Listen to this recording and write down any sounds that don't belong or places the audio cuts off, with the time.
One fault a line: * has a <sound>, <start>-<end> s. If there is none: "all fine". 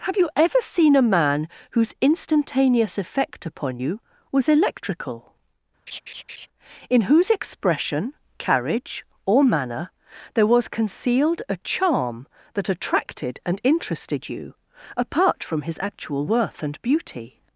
* has a laugh, 5.9-6.5 s